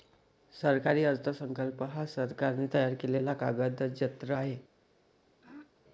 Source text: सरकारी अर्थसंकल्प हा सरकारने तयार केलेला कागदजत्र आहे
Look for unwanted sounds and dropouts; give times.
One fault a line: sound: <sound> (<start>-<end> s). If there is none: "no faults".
sound: throat clearing (5.4-5.7 s)